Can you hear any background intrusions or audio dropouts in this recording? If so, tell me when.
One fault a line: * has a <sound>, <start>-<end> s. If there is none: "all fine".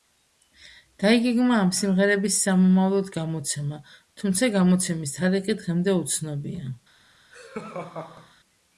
* has a laugh, 7.3-8.3 s